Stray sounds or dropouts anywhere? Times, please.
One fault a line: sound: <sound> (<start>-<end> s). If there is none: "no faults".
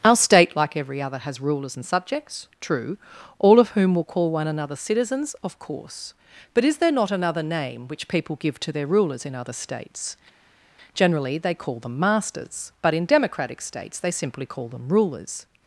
no faults